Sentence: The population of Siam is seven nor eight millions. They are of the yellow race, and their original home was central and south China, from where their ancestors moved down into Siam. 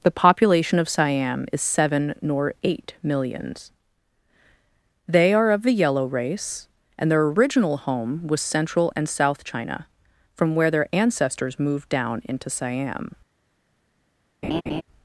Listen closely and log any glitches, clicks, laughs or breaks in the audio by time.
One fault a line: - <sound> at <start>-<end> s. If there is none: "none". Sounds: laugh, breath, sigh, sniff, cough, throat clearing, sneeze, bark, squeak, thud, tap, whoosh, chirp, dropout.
- laugh at 14.4-14.8 s